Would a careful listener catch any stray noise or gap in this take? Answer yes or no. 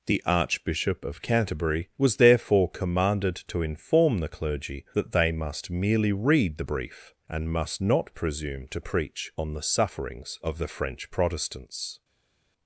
no